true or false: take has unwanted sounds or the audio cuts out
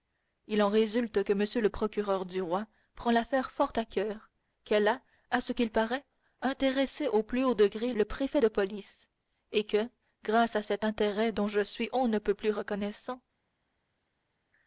false